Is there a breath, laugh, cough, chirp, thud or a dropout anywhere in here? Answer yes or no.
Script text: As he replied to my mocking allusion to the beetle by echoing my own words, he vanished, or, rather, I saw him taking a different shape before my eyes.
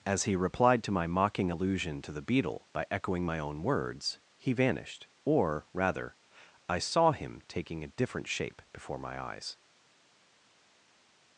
no